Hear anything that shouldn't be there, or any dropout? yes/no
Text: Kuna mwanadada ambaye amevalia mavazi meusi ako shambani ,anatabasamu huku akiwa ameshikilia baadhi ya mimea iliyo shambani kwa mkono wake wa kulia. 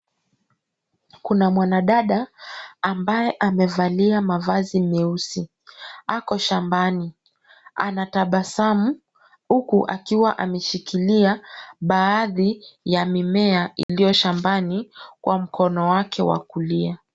yes